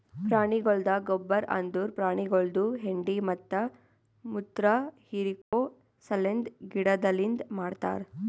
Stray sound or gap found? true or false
true